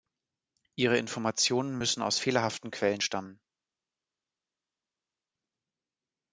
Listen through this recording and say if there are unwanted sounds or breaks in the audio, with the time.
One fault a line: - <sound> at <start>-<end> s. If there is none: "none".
none